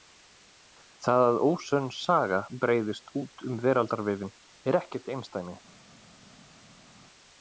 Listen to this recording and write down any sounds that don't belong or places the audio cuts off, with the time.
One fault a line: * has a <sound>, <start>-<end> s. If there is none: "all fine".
all fine